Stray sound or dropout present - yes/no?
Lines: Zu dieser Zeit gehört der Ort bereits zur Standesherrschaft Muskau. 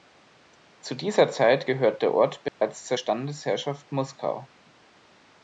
yes